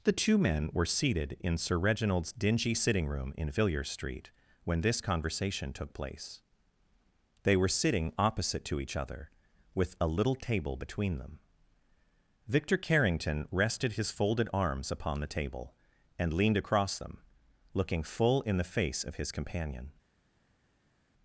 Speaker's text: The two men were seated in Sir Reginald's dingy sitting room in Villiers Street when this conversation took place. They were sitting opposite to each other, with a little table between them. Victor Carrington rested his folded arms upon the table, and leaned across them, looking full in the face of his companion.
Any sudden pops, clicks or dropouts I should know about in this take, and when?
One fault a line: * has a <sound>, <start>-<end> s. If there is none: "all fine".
all fine